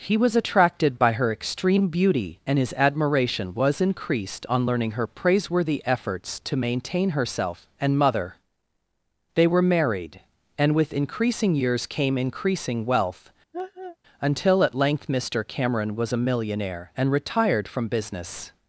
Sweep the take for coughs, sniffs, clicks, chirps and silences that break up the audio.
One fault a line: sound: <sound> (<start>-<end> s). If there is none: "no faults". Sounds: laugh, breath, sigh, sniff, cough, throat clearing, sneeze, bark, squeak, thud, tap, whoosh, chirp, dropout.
sound: laugh (13.5-14.0 s)